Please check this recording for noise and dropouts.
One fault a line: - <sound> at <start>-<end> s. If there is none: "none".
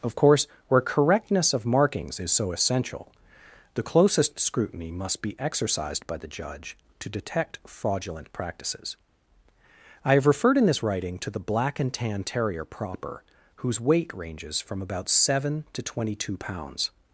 none